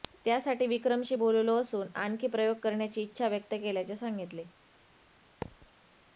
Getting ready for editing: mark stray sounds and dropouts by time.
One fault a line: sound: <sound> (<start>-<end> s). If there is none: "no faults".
sound: thud (5.4-5.7 s)